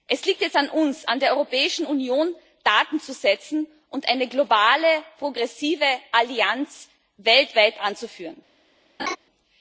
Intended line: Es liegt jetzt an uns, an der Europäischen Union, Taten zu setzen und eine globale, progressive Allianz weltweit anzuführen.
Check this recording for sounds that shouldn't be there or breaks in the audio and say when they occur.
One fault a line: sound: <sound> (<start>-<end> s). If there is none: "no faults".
sound: laugh (9.0-9.2 s)